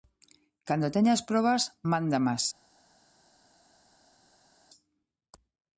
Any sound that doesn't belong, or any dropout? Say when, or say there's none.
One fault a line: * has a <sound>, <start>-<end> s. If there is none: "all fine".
all fine